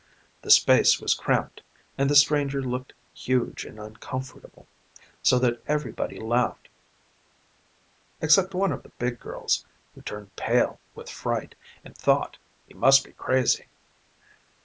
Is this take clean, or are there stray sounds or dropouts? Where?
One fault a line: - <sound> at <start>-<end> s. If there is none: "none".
none